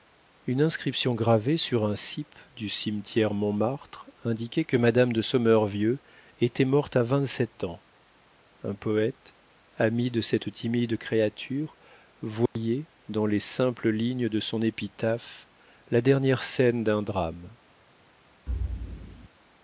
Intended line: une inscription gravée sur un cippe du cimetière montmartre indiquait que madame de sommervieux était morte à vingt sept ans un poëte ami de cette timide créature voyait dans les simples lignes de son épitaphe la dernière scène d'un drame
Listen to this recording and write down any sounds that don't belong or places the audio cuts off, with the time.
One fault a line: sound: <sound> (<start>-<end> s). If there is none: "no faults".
sound: dropout (12.5-12.6 s)
sound: thud (18.5-19.3 s)